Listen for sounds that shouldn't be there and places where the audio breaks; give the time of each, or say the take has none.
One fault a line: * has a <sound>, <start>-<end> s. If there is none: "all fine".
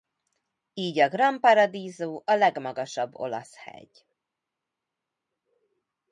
all fine